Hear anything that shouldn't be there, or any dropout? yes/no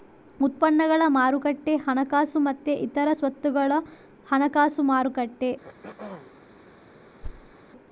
yes